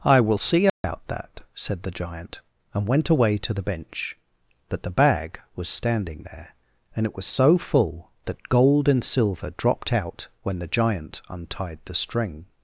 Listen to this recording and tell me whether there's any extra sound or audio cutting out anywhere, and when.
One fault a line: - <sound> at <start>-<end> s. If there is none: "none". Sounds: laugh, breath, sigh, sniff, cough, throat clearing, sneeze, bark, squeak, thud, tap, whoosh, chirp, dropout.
- dropout at 0.7-0.8 s